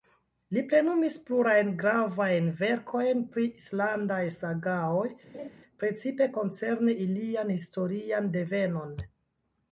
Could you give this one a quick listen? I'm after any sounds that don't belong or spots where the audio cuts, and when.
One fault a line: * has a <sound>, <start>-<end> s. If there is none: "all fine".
* has a laugh, 5.3-5.5 s